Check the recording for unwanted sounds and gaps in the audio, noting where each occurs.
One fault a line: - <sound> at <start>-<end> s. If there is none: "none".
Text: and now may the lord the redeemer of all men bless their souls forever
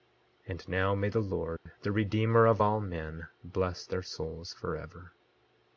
- dropout at 1.6-1.7 s